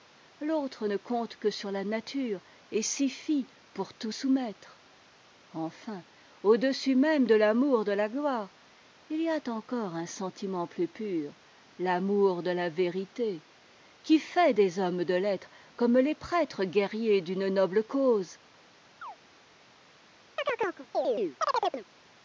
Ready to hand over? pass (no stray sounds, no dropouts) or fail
fail